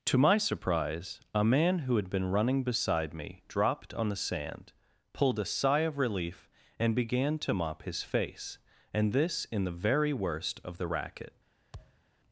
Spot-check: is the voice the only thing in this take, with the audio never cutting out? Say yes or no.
no